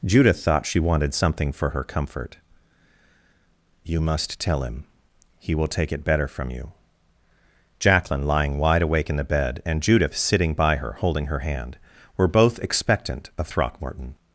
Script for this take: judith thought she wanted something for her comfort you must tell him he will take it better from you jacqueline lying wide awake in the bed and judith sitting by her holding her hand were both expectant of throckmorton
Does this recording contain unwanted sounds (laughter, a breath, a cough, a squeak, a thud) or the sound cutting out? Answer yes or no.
no